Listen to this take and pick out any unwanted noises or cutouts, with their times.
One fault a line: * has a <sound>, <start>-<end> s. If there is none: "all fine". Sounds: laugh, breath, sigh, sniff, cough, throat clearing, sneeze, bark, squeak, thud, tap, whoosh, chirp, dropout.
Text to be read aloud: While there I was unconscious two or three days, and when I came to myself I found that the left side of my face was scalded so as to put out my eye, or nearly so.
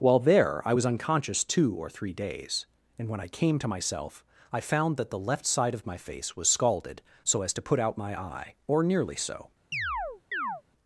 * has a chirp, 9.7-10.6 s